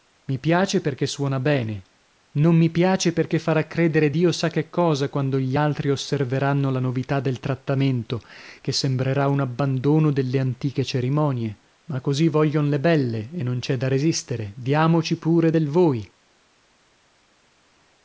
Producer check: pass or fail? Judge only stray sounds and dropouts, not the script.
pass